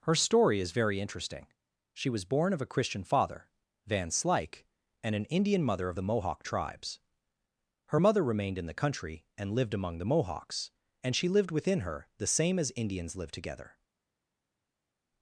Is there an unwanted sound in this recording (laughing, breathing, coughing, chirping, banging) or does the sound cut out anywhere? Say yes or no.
no